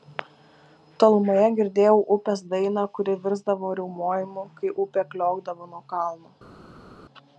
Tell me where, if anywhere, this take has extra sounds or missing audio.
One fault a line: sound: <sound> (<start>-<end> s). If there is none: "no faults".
no faults